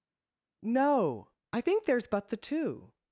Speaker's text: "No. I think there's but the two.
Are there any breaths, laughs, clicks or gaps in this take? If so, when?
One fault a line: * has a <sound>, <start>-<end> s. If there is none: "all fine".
all fine